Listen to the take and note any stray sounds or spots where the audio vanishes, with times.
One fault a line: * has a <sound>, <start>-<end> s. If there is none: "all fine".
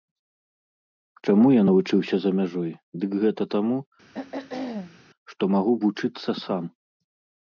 * has a throat clearing, 4.1-5.0 s